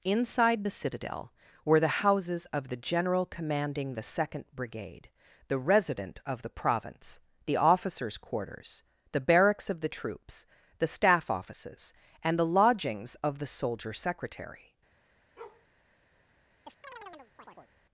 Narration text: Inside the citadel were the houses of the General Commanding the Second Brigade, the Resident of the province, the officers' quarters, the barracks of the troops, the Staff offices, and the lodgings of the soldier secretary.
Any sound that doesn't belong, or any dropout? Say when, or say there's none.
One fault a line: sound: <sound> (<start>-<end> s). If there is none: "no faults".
sound: bark (15.4-15.7 s)
sound: chirp (16.6-17.7 s)